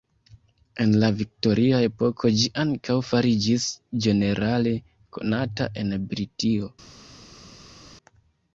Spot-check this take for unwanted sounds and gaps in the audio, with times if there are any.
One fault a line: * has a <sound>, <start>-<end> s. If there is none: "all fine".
all fine